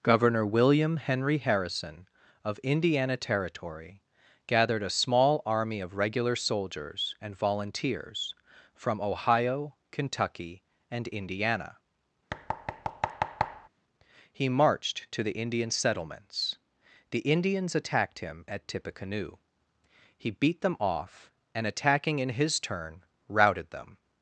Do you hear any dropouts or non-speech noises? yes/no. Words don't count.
yes